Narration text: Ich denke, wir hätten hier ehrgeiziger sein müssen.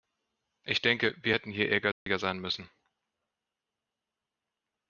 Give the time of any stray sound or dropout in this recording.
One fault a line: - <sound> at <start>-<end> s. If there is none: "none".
- dropout at 1.9-2.1 s